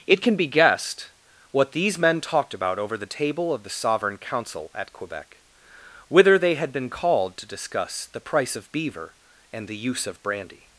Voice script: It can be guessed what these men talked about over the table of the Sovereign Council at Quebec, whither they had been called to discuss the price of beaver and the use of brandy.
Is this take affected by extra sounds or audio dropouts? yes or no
no